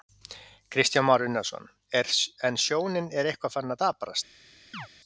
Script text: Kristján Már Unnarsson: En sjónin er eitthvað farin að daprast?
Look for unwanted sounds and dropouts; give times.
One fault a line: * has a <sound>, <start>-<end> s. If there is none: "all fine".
* has a chirp, 4.7-4.9 s